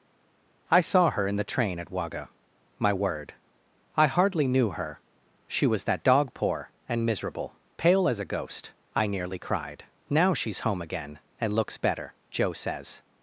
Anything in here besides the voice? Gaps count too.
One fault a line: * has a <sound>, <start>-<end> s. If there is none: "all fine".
all fine